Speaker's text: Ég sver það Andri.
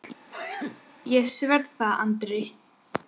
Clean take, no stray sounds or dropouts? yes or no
no